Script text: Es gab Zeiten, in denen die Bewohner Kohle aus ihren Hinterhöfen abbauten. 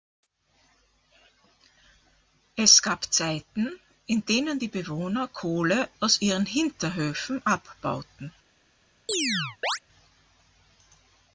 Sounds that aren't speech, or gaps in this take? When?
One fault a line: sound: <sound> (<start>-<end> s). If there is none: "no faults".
sound: chirp (9.1-9.8 s)